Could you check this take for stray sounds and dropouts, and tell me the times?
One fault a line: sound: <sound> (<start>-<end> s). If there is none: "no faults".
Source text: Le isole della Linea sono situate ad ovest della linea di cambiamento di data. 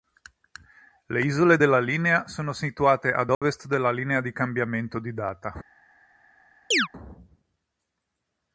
sound: dropout (3.3-3.4 s)
sound: chirp (6.7-6.9 s)